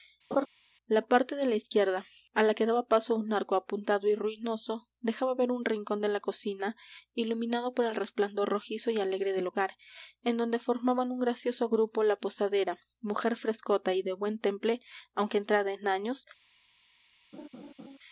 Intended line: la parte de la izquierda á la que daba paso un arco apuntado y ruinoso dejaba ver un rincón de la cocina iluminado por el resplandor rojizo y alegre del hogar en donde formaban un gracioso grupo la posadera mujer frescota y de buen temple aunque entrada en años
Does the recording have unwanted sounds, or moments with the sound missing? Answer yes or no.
yes